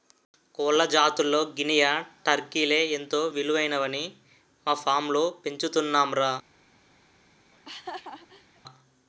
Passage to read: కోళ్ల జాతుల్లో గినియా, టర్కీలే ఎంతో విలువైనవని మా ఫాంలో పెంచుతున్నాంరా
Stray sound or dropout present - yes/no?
yes